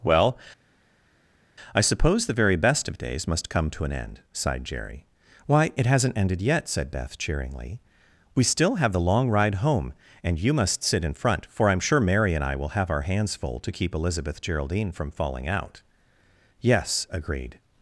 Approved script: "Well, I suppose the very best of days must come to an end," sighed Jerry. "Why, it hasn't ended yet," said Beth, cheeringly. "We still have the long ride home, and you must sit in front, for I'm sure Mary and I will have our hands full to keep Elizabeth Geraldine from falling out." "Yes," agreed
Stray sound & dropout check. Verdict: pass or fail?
pass